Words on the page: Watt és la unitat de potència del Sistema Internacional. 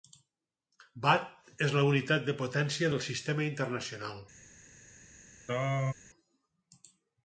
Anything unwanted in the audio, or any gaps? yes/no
yes